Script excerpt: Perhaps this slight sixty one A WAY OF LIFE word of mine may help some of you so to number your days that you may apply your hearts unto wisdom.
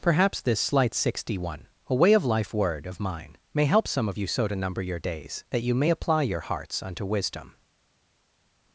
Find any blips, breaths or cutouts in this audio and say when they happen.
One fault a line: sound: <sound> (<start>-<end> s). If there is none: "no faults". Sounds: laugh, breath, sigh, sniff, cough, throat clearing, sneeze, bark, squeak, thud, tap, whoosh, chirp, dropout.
no faults